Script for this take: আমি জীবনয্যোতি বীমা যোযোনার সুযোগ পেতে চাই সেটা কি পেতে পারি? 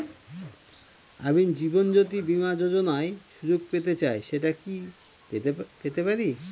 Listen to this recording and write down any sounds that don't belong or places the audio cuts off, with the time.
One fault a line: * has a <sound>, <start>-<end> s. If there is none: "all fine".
all fine